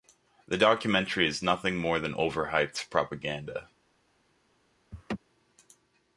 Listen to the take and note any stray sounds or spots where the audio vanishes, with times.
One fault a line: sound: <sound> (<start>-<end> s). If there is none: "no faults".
sound: laugh (4.9-5.2 s)